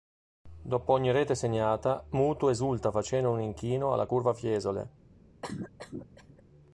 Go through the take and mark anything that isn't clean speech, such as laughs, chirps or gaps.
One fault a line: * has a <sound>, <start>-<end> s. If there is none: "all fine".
* has a cough, 5.4-6.4 s